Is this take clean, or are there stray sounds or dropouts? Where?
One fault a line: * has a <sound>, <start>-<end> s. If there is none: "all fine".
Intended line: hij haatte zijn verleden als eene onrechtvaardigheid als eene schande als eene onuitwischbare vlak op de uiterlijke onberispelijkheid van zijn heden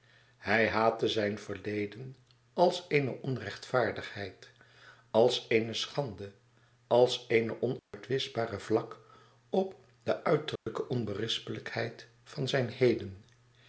* has a dropout, 7.8-7.9 s
* has a dropout, 10.6-10.7 s